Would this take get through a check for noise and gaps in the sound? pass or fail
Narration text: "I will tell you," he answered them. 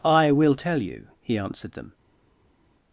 pass